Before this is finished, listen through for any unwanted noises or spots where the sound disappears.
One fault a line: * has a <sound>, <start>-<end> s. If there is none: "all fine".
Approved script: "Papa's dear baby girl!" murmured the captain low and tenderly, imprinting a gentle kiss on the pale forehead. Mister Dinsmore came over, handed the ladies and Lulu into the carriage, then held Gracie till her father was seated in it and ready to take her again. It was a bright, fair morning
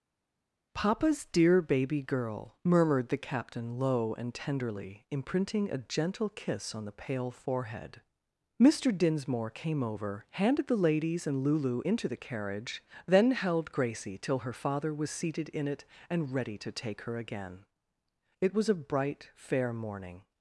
all fine